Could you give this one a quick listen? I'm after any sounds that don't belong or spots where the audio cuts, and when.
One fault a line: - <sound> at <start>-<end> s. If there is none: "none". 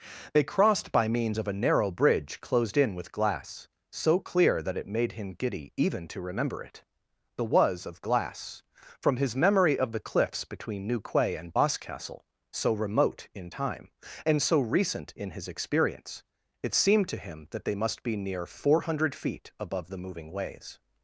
none